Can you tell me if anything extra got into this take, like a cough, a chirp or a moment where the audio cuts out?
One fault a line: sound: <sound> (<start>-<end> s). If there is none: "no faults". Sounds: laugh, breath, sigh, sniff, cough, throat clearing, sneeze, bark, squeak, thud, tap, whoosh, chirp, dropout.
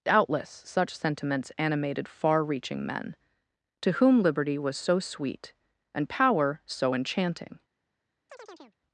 sound: chirp (8.3-8.8 s)